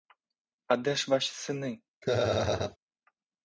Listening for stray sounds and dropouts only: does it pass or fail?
fail